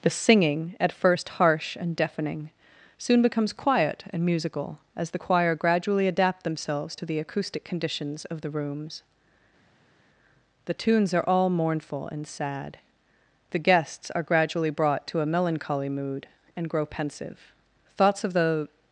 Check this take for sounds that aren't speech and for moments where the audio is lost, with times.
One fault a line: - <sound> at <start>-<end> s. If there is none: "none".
none